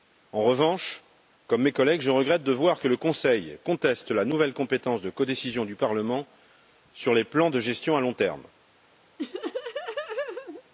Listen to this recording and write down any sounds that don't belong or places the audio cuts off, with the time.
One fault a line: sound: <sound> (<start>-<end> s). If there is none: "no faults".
sound: laugh (9.2-10.6 s)